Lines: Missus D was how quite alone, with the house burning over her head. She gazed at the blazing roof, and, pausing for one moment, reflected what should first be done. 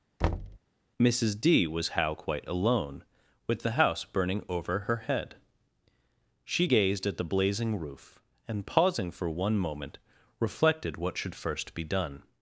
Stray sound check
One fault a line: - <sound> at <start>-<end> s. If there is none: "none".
- thud at 0.2-0.6 s